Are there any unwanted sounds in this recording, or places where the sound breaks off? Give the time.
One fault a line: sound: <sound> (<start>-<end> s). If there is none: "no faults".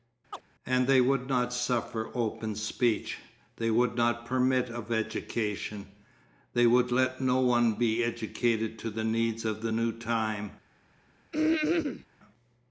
sound: chirp (0.3-0.4 s)
sound: throat clearing (11.3-12.1 s)